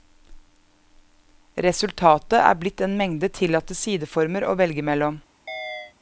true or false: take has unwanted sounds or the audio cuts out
true